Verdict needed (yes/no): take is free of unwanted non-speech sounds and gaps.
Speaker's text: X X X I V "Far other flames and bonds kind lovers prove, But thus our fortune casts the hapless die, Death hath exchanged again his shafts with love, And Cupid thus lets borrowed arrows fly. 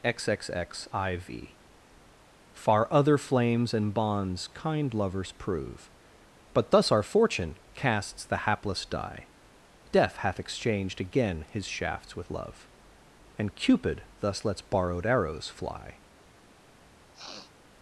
no